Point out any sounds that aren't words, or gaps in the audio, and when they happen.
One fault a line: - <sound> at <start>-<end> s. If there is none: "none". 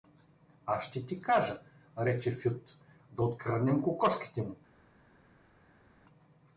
none